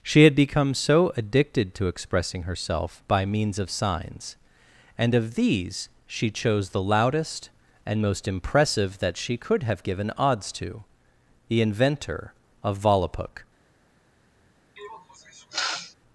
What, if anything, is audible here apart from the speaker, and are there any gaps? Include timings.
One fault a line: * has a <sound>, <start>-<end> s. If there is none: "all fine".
* has a sniff, 14.8-15.9 s